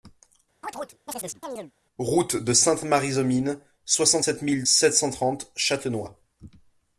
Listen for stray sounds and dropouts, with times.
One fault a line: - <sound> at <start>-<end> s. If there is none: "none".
- chirp at 0.6-1.7 s